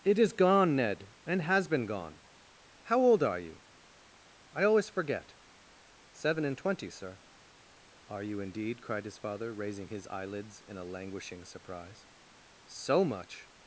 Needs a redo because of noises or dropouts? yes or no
no